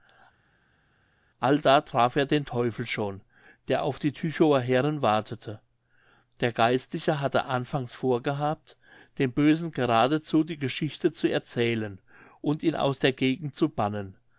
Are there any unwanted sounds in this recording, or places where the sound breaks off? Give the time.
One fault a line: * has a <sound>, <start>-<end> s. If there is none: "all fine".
all fine